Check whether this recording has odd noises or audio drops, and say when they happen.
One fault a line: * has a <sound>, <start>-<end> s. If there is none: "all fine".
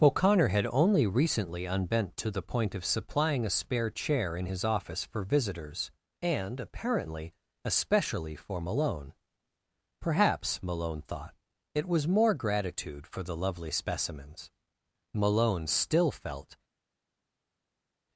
all fine